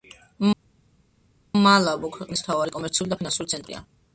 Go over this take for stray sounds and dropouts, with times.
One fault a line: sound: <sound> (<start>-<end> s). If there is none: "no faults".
no faults